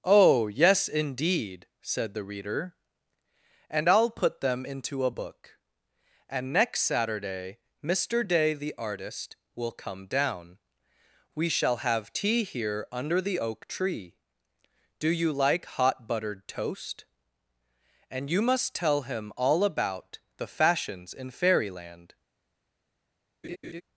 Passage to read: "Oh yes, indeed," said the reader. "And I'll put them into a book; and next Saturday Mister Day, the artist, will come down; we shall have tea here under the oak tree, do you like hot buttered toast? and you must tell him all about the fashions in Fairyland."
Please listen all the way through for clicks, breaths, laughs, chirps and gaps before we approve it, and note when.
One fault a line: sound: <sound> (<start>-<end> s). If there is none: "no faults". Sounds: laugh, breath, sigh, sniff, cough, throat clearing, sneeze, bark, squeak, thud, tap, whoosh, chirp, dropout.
sound: laugh (23.4-23.8 s)